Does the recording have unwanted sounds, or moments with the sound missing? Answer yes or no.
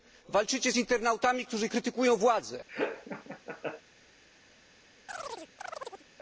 yes